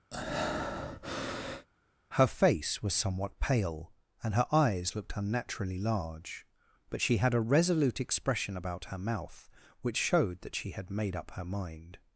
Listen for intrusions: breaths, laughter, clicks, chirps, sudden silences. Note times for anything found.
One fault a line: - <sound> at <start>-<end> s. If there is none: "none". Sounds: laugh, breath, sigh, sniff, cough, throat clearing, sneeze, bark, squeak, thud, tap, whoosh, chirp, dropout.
- breath at 0.1-1.7 s